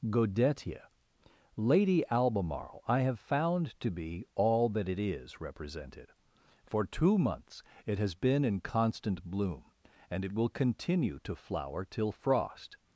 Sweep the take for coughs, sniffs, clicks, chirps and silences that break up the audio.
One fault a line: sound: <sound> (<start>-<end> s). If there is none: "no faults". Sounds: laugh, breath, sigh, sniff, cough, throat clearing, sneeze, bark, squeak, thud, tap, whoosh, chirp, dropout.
no faults